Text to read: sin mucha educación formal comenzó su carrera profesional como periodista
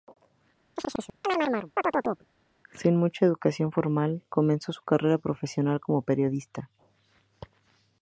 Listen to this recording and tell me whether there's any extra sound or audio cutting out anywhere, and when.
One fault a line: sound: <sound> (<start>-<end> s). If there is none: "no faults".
sound: chirp (0.8-2.3 s)